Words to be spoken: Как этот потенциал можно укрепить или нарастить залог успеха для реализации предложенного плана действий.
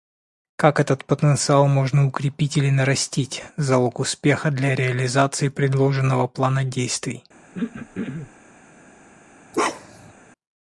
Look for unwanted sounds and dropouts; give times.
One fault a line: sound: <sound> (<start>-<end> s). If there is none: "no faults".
sound: throat clearing (7.5-8.3 s)
sound: bark (9.5-10.1 s)